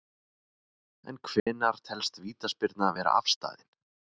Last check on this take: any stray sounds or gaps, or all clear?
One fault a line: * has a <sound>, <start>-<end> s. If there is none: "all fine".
* has a dropout, 1.4-1.5 s